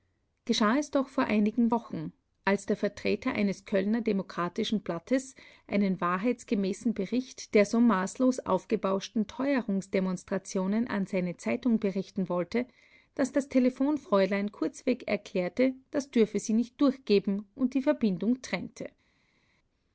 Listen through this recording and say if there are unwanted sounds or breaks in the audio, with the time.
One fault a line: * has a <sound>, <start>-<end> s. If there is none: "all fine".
all fine